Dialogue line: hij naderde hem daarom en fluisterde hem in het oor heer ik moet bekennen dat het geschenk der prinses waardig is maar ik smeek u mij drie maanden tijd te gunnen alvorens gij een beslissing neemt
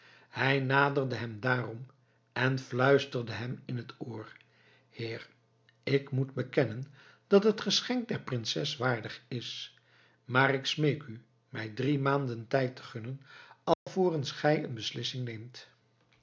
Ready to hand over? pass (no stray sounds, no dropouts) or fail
fail